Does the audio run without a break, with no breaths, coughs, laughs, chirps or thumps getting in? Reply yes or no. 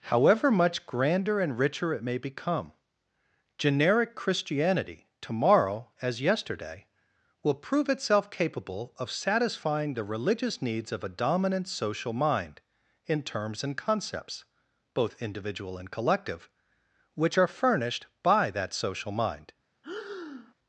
no